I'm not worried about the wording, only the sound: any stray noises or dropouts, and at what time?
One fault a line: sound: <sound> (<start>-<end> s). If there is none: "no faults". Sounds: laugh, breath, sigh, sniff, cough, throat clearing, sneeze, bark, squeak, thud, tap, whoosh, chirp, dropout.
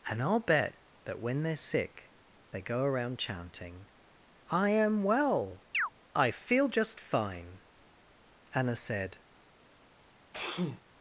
sound: chirp (5.7-5.9 s)
sound: sneeze (10.3-10.8 s)